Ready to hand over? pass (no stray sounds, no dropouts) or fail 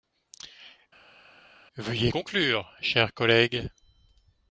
pass